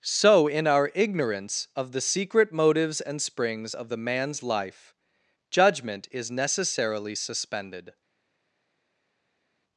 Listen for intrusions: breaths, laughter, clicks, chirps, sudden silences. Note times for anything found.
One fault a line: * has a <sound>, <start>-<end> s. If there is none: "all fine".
all fine